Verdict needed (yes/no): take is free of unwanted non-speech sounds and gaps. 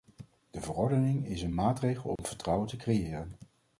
no